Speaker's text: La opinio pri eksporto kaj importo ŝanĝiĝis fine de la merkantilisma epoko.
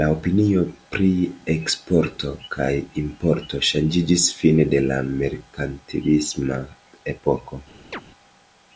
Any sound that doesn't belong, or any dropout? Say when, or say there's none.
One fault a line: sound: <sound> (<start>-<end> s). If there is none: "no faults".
sound: chirp (7.9-8.0 s)